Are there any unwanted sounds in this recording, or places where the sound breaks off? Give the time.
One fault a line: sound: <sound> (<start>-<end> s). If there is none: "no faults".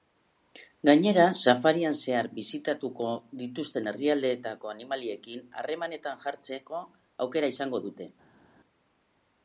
no faults